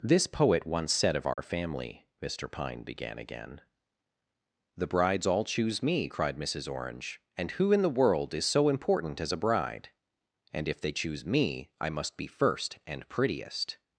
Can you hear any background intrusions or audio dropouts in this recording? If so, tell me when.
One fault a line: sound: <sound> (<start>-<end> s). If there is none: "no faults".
sound: dropout (1.3-1.4 s)